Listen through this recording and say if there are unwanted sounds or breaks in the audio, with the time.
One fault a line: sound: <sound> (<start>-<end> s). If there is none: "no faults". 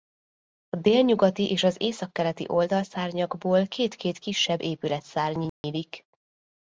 sound: dropout (5.5-5.6 s)